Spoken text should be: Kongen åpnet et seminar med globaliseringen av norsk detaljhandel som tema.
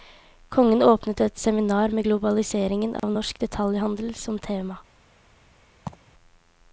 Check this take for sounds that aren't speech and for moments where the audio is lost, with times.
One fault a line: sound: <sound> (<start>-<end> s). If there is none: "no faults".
sound: dropout (3.0-3.0 s)
sound: laugh (5.9-6.1 s)